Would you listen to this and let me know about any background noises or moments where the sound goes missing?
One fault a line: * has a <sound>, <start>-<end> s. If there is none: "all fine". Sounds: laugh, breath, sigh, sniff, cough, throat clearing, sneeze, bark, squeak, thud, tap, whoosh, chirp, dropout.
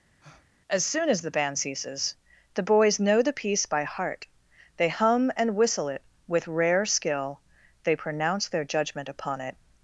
* has a breath, 0.2-0.5 s